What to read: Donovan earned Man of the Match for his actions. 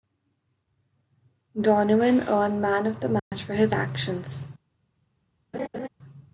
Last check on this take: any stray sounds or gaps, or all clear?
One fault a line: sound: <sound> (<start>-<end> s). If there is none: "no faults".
sound: dropout (3.2-3.3 s)
sound: laugh (5.5-5.9 s)